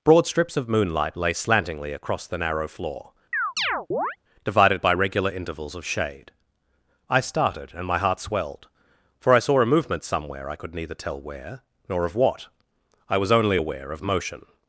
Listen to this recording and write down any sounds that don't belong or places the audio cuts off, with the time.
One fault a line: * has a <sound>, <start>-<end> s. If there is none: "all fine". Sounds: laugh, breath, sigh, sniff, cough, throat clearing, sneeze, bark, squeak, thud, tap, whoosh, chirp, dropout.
* has a chirp, 3.3-4.2 s